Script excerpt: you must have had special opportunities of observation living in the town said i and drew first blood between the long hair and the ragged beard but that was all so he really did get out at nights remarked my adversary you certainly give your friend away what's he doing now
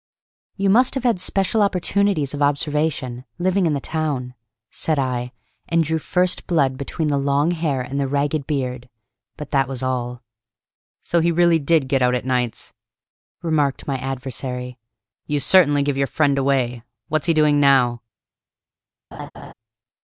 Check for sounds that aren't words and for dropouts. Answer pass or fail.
fail